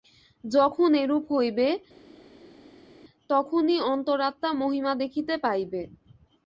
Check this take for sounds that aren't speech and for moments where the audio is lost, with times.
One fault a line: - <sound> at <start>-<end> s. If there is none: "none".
none